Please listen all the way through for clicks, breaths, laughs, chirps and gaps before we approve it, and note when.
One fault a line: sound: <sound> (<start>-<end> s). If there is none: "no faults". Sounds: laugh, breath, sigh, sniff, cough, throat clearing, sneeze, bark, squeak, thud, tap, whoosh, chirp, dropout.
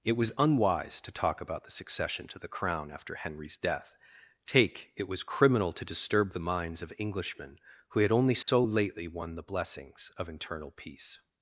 sound: dropout (8.4-8.5 s)